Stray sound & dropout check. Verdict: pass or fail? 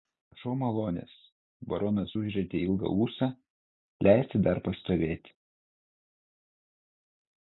pass